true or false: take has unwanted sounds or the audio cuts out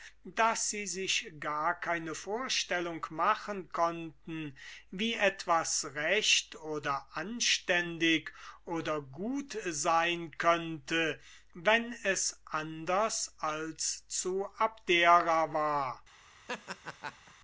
true